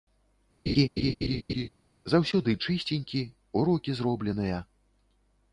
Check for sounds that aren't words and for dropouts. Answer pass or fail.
fail